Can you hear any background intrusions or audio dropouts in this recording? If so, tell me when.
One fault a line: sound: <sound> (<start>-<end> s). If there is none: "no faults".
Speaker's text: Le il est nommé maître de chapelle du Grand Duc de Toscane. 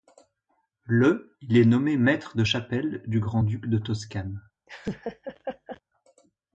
sound: laugh (4.7-5.8 s)